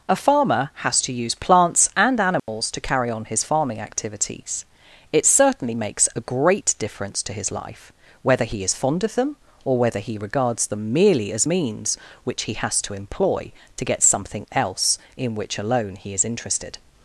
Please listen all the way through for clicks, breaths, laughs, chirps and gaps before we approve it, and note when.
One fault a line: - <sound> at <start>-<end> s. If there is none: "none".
- dropout at 2.4-2.5 s